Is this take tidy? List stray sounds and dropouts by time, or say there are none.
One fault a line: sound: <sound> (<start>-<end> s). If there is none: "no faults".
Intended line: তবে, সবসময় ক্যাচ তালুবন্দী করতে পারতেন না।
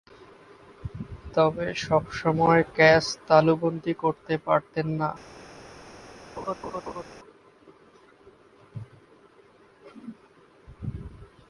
sound: laugh (6.4-7.0 s)